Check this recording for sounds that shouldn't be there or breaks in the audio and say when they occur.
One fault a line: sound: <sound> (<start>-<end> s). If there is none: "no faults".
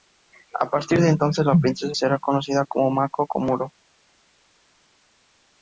no faults